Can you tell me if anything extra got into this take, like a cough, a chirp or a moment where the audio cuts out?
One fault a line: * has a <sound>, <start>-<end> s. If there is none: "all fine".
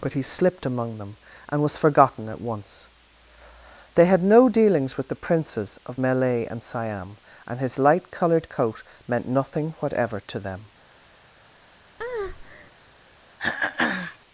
* has a breath, 12.0-12.7 s
* has a throat clearing, 13.4-14.2 s